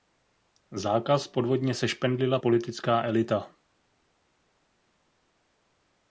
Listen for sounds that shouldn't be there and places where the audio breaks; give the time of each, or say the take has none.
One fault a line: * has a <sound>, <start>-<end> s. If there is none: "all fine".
all fine